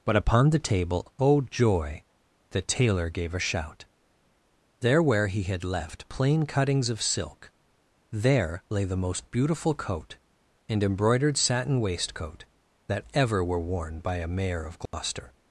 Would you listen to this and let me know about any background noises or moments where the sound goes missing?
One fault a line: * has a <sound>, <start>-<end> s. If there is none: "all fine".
* has a dropout, 14.9-14.9 s